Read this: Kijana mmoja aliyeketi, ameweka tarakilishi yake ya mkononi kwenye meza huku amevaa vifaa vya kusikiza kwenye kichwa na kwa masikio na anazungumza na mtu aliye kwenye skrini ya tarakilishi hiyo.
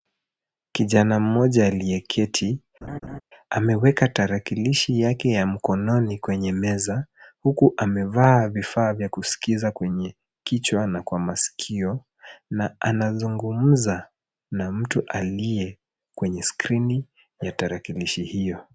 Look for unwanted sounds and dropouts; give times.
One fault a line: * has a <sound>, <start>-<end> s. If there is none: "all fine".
* has a laugh, 2.8-3.2 s